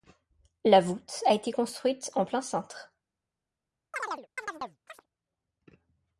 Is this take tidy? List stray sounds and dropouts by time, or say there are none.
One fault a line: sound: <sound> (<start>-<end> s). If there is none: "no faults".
sound: chirp (3.9-5.1 s)